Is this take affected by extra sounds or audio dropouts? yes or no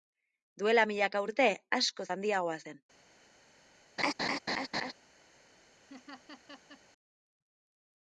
yes